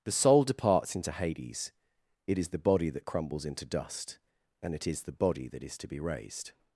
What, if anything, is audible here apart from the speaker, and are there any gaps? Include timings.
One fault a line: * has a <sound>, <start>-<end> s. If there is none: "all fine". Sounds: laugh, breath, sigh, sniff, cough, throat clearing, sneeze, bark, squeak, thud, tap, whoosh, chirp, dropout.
all fine